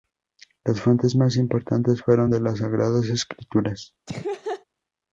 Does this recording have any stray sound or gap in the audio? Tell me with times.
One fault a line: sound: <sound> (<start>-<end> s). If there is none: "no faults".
sound: laugh (4.1-4.7 s)